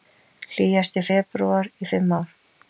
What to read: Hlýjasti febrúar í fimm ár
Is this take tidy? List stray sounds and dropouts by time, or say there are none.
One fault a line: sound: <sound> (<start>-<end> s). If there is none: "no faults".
no faults